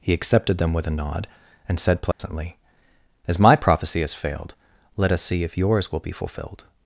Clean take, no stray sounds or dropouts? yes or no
no